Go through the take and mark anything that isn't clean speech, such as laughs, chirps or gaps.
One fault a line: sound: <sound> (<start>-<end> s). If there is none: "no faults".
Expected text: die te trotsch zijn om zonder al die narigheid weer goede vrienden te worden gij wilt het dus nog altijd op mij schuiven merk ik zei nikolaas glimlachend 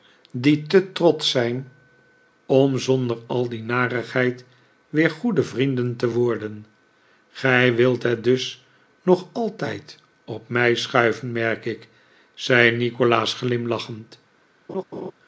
sound: laugh (14.7-15.1 s)